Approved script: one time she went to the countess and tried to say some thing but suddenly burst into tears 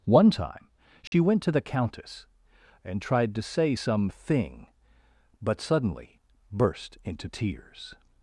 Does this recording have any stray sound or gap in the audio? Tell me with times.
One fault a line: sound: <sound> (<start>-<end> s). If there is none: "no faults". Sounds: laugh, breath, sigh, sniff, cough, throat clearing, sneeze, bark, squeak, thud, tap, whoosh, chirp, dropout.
sound: dropout (1.1-1.1 s)